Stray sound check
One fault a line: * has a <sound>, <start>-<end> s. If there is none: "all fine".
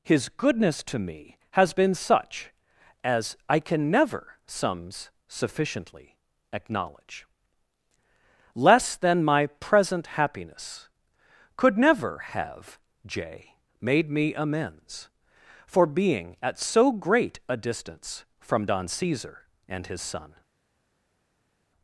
all fine